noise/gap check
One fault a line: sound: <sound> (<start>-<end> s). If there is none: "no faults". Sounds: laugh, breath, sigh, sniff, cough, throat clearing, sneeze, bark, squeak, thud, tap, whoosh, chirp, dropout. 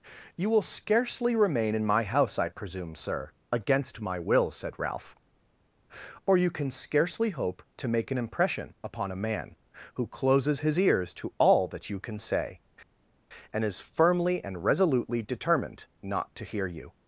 no faults